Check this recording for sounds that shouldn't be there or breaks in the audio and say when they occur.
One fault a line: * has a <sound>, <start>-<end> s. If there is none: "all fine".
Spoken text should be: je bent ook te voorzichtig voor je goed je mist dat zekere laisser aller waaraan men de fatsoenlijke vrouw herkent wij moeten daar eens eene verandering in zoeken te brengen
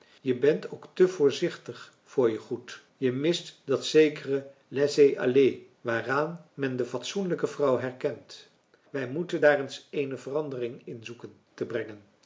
all fine